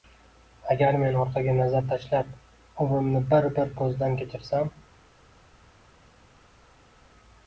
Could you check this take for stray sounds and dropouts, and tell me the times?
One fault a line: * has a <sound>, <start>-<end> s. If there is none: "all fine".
all fine